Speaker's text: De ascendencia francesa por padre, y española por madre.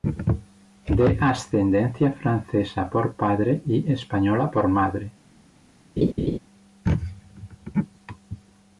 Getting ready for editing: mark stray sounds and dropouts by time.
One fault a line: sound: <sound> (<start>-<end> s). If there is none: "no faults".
sound: laugh (6.0-6.4 s)